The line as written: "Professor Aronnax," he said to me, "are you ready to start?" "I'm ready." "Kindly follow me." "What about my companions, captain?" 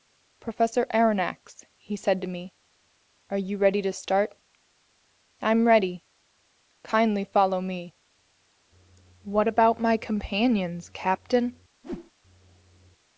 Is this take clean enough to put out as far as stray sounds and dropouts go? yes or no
no